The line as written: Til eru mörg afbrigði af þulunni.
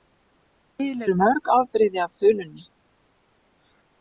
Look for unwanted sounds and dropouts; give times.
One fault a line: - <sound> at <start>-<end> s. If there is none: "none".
none